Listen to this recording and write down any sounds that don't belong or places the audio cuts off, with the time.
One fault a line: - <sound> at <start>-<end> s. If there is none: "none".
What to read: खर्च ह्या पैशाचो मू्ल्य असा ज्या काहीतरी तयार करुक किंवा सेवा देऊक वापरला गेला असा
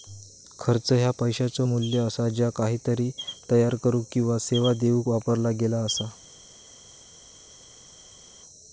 none